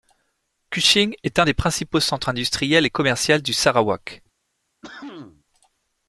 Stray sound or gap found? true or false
true